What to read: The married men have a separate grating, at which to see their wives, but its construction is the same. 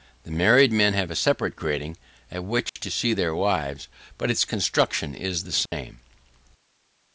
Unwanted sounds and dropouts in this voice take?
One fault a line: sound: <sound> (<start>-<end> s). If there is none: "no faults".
sound: dropout (2.7-2.8 s)
sound: dropout (5.7-5.7 s)